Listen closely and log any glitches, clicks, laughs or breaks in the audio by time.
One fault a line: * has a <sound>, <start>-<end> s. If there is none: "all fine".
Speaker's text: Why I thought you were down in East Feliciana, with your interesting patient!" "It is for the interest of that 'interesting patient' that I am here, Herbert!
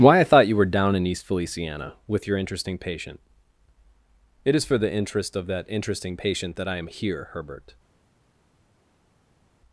all fine